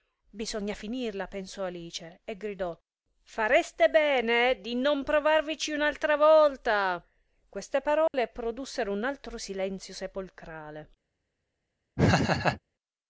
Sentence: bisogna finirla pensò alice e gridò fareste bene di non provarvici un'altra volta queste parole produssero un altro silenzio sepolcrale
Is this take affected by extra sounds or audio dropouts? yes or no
yes